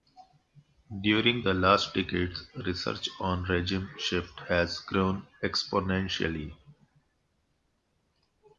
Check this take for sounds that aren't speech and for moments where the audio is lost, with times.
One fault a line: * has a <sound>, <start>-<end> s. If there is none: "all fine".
all fine